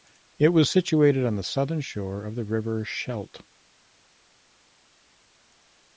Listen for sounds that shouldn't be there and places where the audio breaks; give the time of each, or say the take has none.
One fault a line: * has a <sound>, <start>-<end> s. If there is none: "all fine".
all fine